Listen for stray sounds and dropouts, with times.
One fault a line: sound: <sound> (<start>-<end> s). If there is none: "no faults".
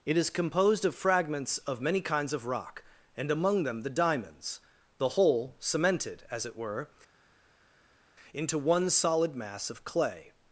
no faults